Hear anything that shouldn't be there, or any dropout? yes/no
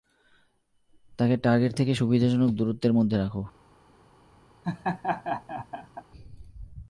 yes